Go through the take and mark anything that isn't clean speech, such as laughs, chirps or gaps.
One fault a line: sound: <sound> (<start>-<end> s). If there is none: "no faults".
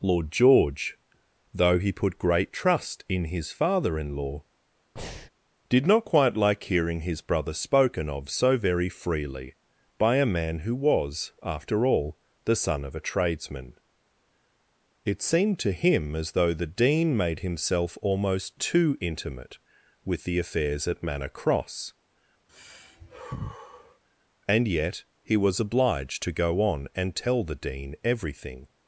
sound: breath (5.0-5.3 s)
sound: sigh (22.5-24.0 s)